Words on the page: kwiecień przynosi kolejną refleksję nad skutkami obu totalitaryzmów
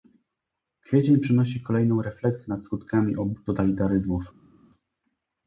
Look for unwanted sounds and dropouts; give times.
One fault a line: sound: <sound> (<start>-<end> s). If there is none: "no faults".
no faults